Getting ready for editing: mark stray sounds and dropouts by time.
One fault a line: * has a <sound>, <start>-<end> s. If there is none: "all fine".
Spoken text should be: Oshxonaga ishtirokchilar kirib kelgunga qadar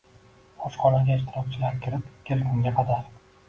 all fine